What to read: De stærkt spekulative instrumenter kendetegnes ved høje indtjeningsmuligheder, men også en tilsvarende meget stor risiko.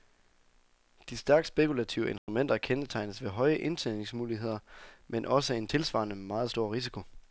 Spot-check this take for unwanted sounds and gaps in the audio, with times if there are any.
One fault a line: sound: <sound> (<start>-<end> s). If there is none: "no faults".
sound: dropout (2.2-2.3 s)